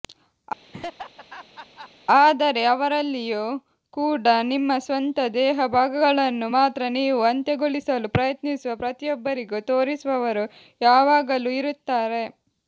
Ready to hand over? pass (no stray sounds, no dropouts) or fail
fail